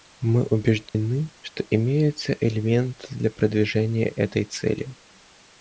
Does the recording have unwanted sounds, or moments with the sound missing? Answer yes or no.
yes